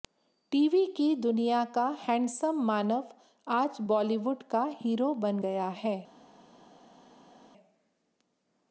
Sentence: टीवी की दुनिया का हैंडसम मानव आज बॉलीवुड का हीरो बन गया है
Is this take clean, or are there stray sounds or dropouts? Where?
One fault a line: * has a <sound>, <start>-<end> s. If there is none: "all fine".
all fine